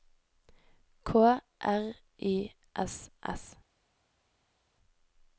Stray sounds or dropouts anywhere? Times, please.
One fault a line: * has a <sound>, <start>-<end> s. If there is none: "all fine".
all fine